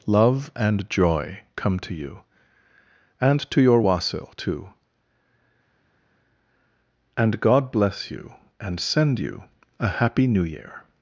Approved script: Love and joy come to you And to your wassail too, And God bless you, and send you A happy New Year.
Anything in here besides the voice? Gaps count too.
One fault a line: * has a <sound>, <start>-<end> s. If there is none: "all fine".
all fine